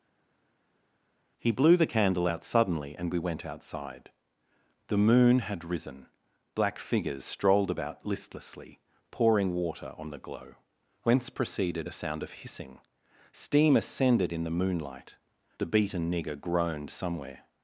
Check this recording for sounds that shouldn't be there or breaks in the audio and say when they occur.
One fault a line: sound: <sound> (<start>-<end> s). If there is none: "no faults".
no faults